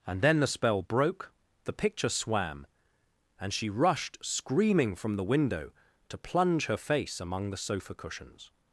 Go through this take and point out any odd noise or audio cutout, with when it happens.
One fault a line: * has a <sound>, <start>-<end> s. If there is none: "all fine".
all fine